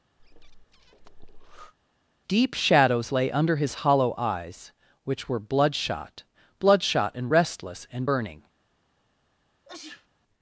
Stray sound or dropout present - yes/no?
yes